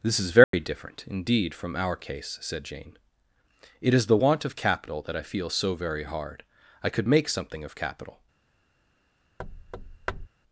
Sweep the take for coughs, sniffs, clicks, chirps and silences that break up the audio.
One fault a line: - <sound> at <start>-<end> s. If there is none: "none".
- dropout at 0.4-0.5 s
- thud at 9.4-10.3 s